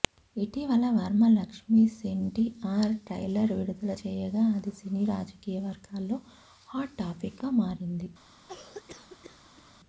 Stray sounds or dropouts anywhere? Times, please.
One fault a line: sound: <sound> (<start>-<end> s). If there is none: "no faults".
sound: cough (8.5-9.7 s)